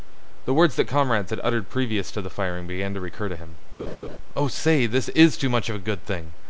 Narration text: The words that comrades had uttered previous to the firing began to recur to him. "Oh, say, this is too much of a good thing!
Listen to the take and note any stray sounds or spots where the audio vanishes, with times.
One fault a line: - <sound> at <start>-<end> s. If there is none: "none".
- laugh at 3.8-4.2 s